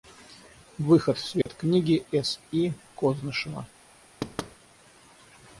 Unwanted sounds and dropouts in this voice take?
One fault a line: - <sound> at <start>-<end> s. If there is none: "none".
- dropout at 1.4-1.5 s
- thud at 4.2-4.6 s